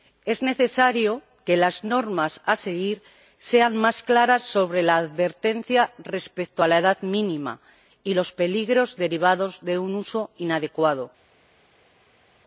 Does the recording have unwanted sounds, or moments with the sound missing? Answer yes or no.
no